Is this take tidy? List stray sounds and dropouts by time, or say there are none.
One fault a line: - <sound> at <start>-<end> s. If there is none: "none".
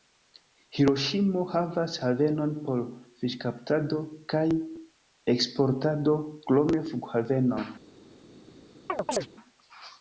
- chirp at 8.9-9.3 s